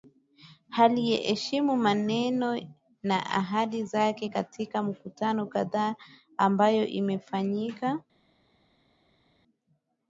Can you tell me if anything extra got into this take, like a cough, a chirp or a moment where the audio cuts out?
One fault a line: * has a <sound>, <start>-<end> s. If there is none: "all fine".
all fine